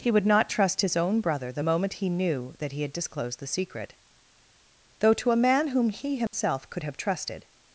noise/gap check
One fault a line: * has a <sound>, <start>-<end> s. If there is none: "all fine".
* has a dropout, 6.3-6.3 s